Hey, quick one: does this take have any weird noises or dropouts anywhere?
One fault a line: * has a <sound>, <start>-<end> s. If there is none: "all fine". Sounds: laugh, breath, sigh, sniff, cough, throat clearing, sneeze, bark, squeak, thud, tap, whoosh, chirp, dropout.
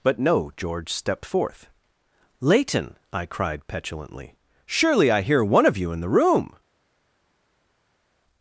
all fine